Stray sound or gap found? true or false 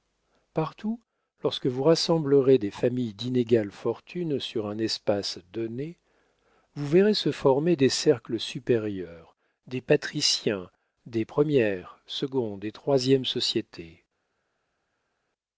false